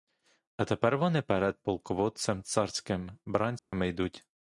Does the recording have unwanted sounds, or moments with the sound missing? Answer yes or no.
yes